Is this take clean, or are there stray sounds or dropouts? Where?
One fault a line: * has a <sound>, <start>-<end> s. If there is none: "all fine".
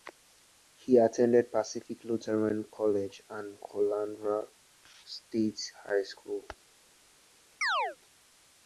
* has a chirp, 7.6-8.0 s